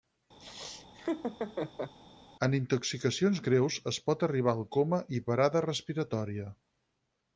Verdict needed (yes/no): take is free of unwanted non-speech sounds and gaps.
no